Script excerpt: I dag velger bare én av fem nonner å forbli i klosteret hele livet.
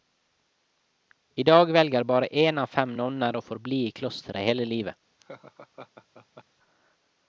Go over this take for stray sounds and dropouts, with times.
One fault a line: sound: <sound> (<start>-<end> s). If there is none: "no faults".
sound: laugh (5.2-6.4 s)